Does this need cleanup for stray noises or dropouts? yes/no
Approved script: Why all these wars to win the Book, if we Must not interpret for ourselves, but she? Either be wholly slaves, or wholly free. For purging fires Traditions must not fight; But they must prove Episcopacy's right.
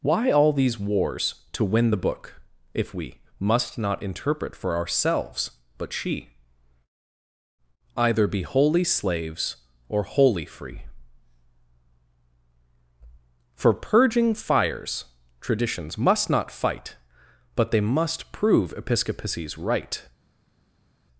no